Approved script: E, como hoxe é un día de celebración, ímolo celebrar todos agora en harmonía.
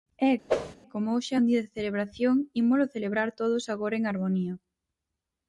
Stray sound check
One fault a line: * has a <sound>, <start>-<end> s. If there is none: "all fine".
* has a whoosh, 0.5-0.8 s